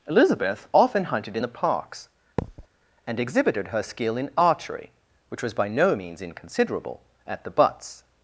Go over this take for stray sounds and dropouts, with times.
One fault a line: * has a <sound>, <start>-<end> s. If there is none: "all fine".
* has a thud, 2.4-2.7 s